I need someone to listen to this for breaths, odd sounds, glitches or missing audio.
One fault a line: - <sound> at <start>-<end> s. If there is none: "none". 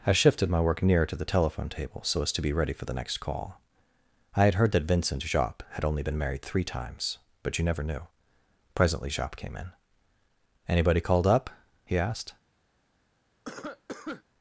- cough at 13.5-14.2 s